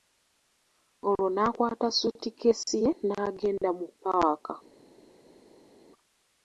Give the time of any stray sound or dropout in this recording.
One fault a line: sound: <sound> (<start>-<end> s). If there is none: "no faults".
no faults